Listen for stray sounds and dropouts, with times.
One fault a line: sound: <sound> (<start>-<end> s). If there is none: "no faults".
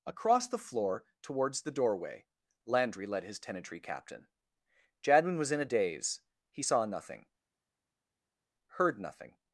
no faults